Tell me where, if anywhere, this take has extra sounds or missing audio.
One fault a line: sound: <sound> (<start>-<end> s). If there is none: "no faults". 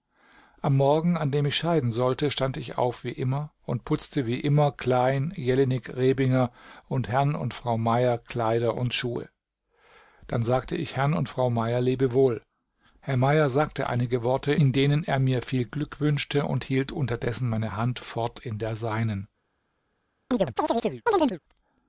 sound: chirp (20.3-21.4 s)